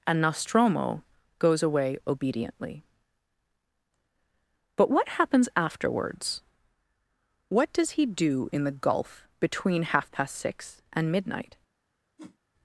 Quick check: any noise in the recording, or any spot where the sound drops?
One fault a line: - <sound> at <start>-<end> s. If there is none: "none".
- whoosh at 12.2-12.4 s